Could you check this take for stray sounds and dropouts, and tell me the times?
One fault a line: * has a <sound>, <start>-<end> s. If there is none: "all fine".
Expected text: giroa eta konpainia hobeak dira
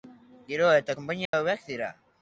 * has a dropout, 1.3-1.3 s